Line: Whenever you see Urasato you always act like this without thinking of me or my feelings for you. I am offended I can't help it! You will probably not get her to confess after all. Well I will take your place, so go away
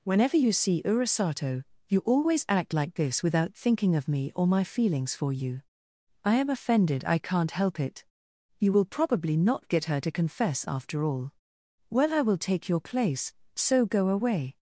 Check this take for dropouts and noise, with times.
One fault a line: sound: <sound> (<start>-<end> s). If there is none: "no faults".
no faults